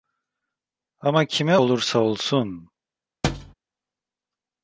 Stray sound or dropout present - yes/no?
yes